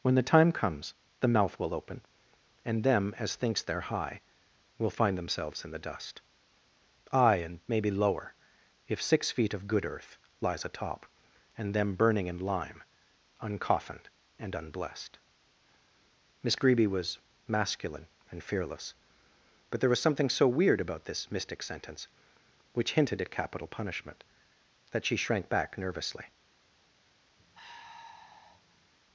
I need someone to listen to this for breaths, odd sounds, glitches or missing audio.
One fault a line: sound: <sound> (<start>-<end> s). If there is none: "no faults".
sound: sigh (27.4-28.9 s)